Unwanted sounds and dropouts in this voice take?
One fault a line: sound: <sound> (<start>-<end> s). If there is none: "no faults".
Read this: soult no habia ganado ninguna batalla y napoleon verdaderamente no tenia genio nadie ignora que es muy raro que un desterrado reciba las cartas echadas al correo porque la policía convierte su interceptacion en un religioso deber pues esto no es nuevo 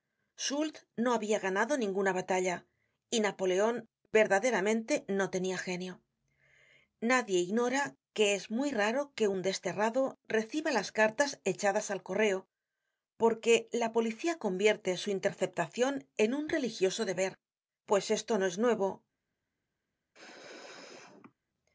sound: sneeze (20.1-21.3 s)